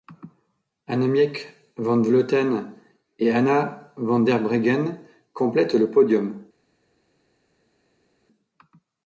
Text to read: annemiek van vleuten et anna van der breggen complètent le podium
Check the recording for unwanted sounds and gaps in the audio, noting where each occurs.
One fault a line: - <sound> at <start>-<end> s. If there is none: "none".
none